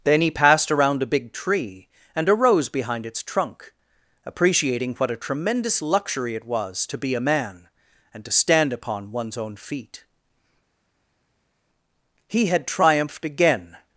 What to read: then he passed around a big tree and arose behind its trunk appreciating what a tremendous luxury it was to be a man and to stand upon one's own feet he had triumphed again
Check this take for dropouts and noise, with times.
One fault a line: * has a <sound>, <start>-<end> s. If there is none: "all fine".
all fine